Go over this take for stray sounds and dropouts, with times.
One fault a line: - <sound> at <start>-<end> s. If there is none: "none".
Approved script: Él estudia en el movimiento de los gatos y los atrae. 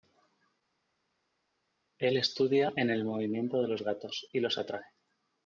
none